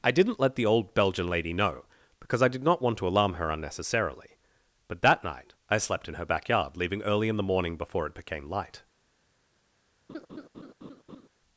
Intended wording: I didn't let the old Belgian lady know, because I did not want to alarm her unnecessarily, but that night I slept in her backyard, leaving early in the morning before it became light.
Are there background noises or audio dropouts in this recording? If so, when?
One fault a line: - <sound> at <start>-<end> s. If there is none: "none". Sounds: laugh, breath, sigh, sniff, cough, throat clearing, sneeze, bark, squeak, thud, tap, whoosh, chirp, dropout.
- laugh at 10.1-11.3 s